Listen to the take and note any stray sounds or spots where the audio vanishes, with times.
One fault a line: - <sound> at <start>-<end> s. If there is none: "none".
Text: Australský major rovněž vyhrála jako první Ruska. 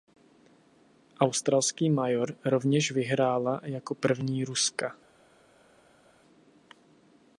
none